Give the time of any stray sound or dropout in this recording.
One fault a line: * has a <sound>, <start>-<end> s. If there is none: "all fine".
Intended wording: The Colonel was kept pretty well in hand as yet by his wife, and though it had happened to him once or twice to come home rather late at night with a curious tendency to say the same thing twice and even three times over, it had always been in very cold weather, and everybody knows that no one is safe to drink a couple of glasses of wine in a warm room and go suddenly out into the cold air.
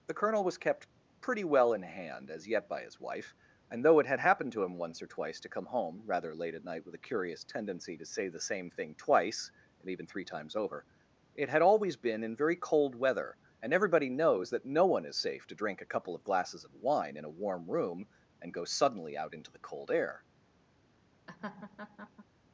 * has a laugh, 21.3-22.2 s